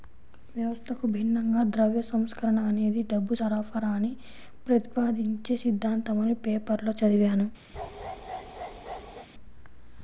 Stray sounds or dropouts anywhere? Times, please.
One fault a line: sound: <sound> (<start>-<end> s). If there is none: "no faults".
sound: bark (7.7-9.3 s)